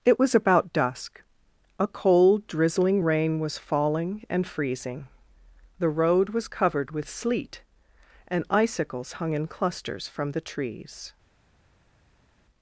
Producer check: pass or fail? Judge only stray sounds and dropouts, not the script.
pass